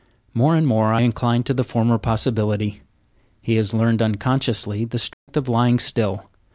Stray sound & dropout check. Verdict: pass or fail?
fail